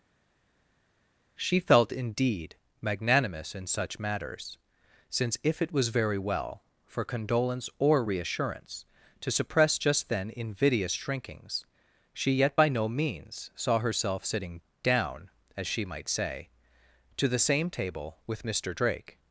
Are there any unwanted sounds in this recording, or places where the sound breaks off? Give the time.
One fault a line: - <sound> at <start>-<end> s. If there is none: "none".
none